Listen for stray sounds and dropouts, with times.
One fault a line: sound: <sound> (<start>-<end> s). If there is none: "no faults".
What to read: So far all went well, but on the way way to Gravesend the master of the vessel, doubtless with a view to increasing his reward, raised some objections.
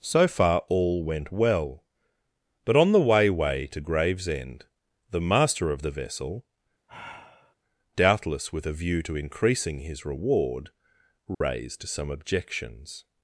sound: sigh (6.9-7.5 s)
sound: dropout (11.3-11.4 s)